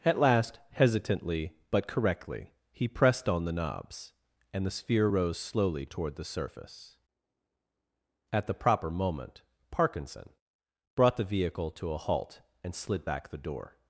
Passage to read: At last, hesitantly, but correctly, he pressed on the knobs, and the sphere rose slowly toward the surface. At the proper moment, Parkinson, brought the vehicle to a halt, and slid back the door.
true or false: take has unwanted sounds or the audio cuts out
false